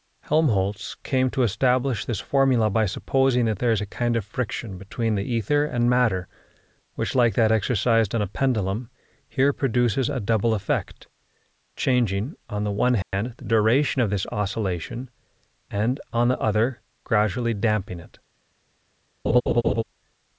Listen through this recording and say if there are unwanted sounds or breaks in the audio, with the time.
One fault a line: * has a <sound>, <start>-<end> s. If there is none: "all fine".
* has a dropout, 13.0-13.1 s
* has a laugh, 19.2-19.8 s